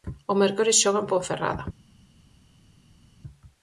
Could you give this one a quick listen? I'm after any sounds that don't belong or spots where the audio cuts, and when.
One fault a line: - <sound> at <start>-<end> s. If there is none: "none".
none